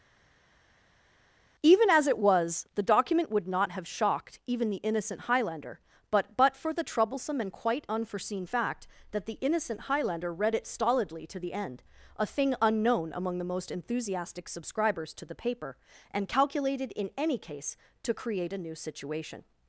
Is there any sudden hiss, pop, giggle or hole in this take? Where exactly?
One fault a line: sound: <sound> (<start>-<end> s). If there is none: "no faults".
no faults